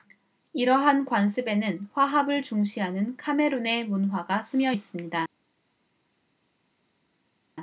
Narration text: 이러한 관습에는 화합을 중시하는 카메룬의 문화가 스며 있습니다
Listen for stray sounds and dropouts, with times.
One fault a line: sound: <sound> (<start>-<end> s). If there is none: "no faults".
no faults